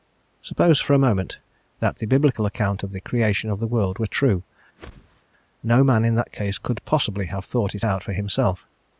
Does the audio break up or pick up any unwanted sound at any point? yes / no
yes